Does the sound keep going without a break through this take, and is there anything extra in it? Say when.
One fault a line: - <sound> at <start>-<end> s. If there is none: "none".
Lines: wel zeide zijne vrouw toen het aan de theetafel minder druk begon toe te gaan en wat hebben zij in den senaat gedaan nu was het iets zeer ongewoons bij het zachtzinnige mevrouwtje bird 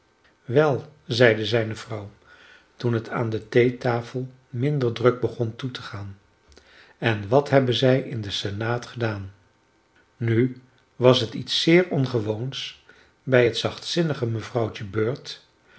none